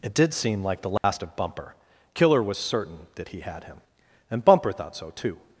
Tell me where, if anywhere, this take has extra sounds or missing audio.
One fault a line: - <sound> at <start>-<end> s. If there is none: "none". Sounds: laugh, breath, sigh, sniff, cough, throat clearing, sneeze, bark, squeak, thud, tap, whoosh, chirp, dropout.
- dropout at 1.0-1.0 s